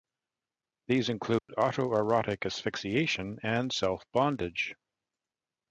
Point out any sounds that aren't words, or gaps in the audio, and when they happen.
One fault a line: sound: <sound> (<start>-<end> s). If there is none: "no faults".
sound: dropout (1.4-1.5 s)